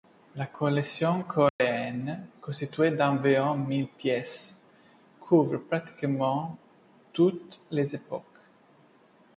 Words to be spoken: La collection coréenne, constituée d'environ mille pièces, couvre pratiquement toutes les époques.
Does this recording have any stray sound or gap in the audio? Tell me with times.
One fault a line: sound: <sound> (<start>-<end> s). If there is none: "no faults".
sound: dropout (1.5-1.6 s)